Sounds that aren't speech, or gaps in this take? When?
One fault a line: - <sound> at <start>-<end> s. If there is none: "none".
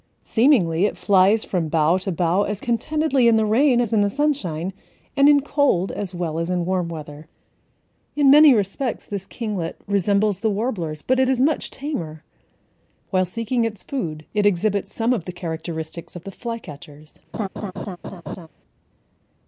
- laugh at 17.3-18.5 s